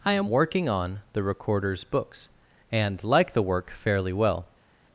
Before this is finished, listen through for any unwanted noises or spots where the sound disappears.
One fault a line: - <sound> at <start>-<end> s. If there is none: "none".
none